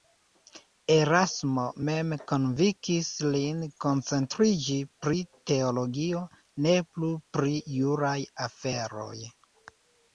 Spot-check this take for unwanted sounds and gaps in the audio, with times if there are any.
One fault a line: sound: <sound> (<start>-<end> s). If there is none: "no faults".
no faults